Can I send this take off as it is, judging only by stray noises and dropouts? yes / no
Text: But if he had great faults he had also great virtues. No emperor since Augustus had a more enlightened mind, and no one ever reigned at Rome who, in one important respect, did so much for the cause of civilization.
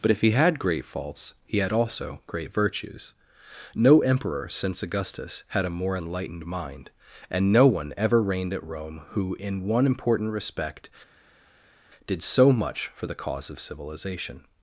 yes